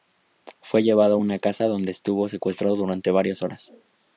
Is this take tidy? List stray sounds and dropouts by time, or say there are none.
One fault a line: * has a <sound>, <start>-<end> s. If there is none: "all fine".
all fine